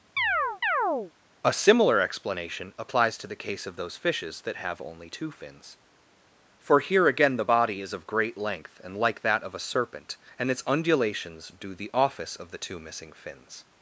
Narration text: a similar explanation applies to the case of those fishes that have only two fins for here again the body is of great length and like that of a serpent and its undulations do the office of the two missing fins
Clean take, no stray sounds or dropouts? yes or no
no